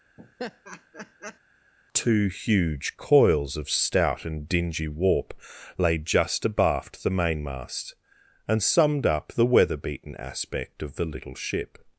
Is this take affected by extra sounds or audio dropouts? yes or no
yes